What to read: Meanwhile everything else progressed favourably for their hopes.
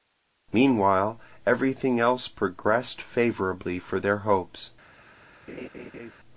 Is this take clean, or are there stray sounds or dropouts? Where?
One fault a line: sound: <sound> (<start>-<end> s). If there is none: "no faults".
sound: laugh (5.5-6.1 s)